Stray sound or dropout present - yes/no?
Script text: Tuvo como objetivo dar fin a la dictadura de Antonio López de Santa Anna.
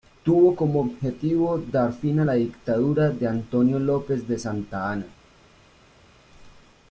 no